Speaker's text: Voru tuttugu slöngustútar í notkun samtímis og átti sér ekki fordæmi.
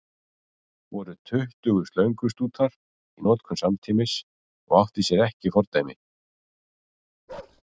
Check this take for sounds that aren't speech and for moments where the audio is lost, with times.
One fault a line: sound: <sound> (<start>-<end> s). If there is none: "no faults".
sound: bark (7.3-7.6 s)